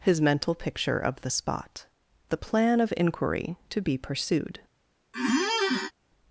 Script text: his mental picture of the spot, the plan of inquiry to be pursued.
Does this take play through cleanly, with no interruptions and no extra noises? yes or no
no